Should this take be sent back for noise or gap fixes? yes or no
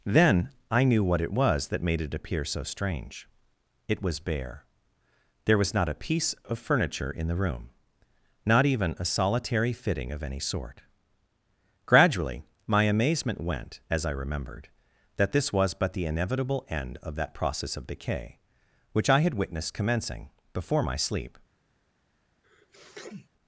yes